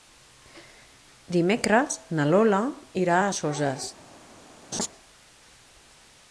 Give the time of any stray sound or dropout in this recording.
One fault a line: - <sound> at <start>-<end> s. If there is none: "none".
- laugh at 4.7-4.9 s